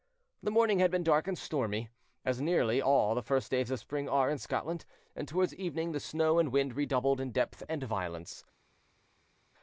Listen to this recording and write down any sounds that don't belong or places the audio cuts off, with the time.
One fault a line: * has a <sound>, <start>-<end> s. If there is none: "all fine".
all fine